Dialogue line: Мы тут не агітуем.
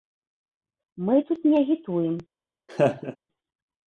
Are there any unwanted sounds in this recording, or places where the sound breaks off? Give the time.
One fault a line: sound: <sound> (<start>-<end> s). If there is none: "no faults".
sound: laugh (2.7-3.2 s)